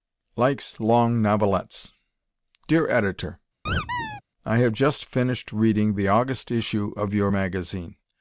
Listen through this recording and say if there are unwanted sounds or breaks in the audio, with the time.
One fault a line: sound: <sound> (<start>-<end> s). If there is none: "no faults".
sound: squeak (3.7-4.2 s)